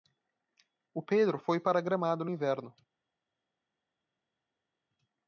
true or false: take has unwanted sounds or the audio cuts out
false